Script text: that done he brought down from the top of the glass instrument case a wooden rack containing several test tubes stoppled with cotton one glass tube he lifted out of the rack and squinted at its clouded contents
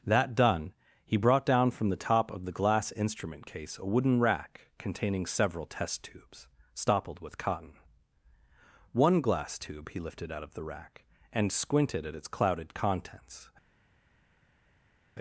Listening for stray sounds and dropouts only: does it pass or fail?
pass